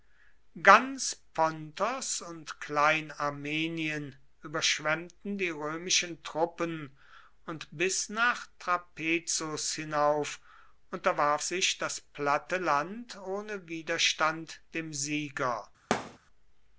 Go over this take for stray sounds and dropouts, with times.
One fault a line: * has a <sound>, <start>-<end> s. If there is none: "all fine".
* has a thud, 15.9-16.2 s